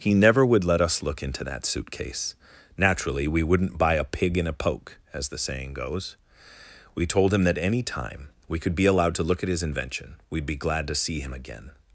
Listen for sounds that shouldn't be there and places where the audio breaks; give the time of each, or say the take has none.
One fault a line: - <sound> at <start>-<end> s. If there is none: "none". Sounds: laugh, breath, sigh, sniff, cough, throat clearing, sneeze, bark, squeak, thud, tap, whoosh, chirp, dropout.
none